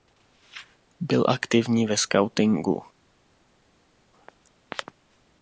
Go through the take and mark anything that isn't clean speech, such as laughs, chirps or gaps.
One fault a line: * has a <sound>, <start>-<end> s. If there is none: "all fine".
all fine